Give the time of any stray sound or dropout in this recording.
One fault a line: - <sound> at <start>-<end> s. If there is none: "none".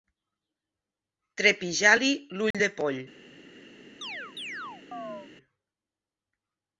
- dropout at 2.5-2.5 s
- chirp at 4.0-5.3 s